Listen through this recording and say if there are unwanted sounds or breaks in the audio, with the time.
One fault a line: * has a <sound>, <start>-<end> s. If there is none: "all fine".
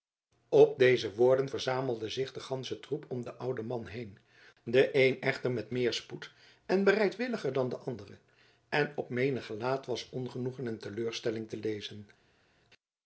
all fine